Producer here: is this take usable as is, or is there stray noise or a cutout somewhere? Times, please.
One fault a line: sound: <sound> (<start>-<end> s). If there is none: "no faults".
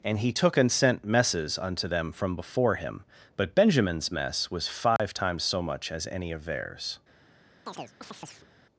sound: dropout (5.0-5.0 s)
sound: chirp (7.7-8.5 s)